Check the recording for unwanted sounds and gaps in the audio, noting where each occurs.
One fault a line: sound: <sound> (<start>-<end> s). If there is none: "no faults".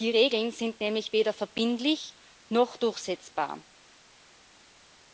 no faults